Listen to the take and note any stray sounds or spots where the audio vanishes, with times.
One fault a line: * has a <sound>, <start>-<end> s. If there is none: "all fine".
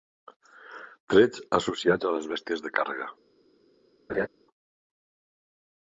* has a laugh, 4.1-4.3 s